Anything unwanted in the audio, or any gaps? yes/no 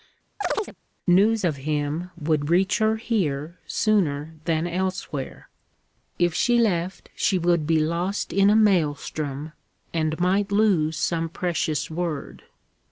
yes